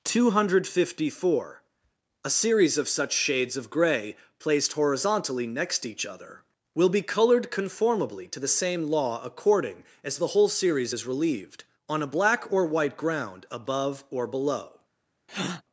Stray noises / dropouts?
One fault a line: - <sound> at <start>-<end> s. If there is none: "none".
- breath at 15.3-15.6 s